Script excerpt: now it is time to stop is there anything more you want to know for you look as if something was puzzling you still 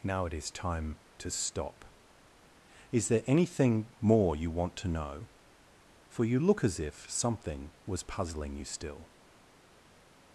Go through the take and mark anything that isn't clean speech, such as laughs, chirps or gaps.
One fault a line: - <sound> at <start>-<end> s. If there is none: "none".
none